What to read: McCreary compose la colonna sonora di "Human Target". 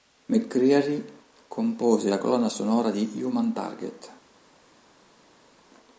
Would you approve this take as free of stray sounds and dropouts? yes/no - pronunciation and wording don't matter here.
yes